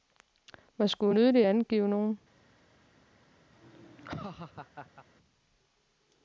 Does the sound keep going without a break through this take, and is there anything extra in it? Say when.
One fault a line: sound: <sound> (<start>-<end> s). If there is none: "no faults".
sound: laugh (3.5-5.1 s)